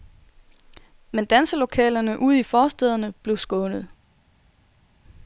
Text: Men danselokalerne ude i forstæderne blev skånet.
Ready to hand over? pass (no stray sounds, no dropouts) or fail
pass